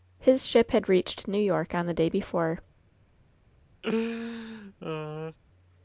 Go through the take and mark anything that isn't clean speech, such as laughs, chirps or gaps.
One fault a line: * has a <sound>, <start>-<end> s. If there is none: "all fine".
* has a laugh, 3.8-5.4 s